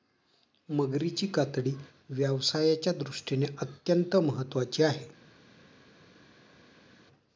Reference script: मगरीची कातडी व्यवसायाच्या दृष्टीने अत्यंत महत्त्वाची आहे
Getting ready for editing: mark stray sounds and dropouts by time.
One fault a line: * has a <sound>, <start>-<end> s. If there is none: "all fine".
all fine